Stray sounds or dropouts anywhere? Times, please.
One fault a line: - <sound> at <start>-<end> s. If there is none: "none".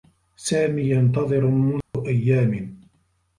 - dropout at 1.8-1.9 s